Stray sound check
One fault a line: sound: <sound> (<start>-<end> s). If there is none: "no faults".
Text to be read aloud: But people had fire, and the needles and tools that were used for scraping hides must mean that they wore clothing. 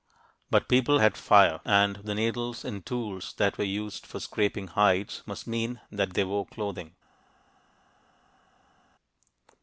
no faults